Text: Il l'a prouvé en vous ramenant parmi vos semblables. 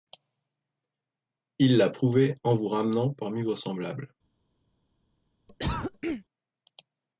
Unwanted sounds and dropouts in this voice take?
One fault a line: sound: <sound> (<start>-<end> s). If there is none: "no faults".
sound: cough (5.5-6.2 s)